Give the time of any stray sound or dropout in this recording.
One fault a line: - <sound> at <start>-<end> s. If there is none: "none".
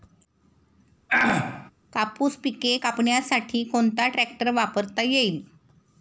- throat clearing at 1.1-1.7 s